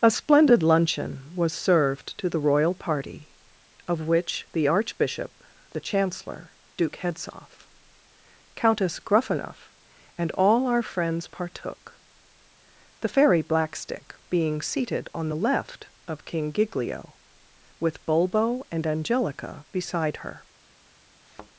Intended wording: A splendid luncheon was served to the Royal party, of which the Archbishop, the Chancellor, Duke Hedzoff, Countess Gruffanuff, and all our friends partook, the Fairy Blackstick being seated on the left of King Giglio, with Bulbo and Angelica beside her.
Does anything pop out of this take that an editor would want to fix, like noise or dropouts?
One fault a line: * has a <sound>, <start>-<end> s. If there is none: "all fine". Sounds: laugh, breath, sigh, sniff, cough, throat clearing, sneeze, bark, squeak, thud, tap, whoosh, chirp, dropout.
* has a thud, 21.2-21.5 s